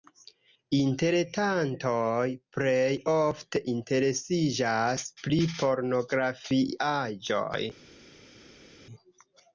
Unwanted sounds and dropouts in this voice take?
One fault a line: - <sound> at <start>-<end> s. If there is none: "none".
none